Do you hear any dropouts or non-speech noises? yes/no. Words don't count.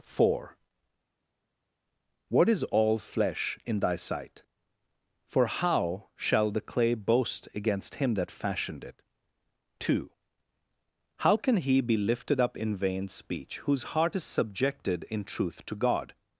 no